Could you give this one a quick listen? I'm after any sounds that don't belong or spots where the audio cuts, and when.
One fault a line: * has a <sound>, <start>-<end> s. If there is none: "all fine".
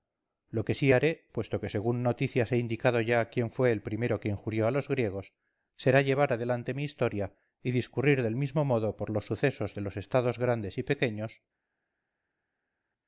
all fine